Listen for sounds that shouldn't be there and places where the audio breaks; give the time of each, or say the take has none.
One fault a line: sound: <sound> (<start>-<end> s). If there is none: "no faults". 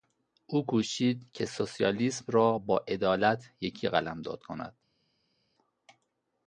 no faults